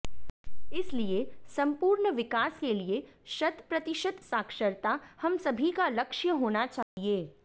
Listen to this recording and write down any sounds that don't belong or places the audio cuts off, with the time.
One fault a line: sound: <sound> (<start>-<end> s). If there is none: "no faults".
sound: dropout (6.8-7.0 s)